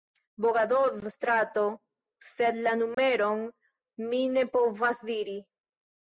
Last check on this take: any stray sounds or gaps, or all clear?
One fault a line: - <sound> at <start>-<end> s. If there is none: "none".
- dropout at 2.9-3.0 s